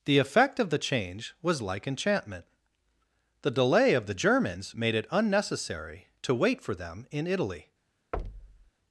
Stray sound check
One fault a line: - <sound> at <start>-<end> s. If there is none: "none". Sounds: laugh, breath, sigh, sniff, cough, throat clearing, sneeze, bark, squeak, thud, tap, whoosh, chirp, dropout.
- thud at 8.1-8.7 s